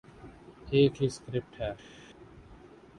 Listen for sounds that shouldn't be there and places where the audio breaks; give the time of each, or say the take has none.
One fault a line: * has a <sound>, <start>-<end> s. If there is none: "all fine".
all fine